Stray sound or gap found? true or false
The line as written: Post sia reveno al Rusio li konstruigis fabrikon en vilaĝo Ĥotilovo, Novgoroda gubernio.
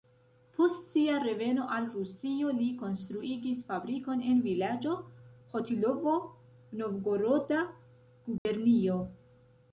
true